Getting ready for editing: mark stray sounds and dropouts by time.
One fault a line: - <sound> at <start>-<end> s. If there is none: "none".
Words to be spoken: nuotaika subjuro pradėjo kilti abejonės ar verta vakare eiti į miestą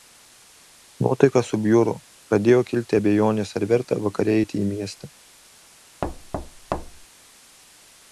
- thud at 6.0-7.1 s